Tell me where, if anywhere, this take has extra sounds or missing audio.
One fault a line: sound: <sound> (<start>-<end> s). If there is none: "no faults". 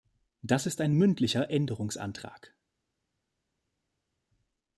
no faults